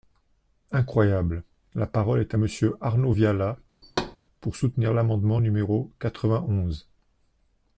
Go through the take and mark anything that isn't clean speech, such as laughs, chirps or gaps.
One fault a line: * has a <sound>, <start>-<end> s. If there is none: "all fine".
* has a thud, 3.8-4.2 s